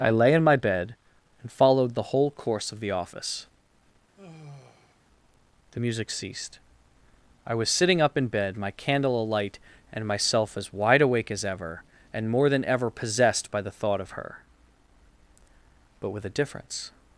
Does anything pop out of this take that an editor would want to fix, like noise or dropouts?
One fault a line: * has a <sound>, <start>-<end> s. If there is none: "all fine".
* has a sigh, 4.2-5.0 s